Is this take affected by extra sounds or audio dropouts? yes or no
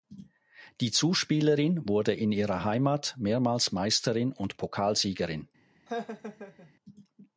yes